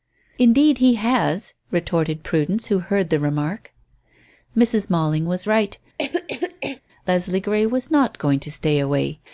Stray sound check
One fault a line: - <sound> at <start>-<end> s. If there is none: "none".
- cough at 6.0-6.8 s